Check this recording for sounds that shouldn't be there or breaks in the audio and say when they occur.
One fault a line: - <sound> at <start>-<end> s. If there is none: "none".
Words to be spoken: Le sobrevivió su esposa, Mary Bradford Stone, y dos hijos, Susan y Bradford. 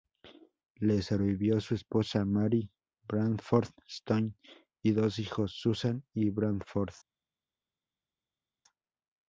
none